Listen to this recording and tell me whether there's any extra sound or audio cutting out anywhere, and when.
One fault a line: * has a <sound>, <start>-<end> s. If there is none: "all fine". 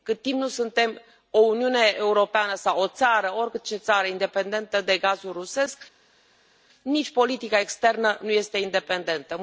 all fine